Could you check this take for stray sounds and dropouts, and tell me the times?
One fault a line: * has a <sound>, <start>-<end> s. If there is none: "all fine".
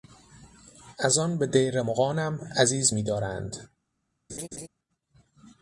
* has a laugh, 4.3-4.7 s